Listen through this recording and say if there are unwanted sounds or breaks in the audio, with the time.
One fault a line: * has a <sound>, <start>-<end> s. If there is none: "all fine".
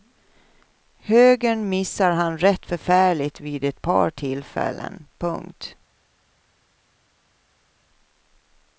all fine